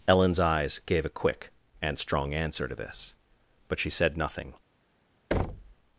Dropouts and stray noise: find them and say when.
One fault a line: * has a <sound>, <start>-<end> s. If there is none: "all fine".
* has a thud, 5.3-5.8 s